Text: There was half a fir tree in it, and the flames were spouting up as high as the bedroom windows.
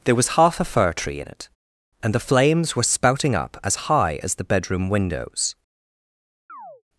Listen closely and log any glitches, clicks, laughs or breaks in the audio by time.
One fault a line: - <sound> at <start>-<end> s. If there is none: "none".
- chirp at 6.5-6.8 s